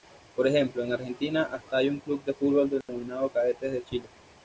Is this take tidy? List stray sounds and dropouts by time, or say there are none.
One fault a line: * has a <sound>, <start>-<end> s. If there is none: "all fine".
* has a dropout, 2.8-2.9 s